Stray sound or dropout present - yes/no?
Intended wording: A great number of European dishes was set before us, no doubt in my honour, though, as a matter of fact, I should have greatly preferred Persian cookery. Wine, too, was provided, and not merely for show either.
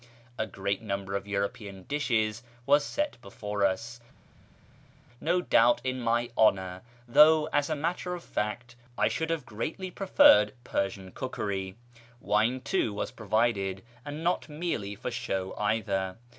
no